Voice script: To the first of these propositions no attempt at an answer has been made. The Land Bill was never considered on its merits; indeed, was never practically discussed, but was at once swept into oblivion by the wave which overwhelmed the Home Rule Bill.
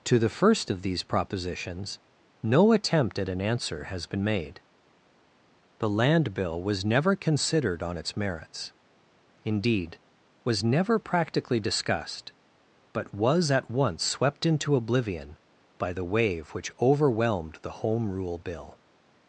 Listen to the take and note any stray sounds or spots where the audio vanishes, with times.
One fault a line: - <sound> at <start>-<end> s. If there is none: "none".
none